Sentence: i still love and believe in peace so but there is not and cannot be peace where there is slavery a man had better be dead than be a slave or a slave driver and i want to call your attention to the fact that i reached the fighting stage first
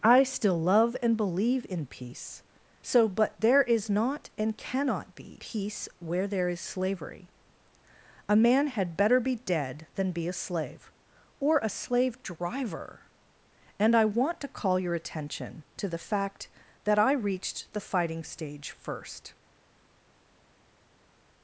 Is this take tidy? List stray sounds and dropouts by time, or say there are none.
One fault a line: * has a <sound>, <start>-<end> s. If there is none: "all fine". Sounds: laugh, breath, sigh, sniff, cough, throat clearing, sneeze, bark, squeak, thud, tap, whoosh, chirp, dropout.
all fine